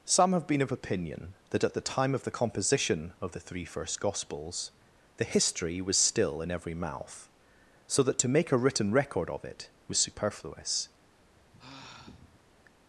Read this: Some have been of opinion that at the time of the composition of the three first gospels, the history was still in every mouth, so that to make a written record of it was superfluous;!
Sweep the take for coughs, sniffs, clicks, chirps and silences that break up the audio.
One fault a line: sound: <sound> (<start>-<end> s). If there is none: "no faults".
sound: sigh (11.0-12.5 s)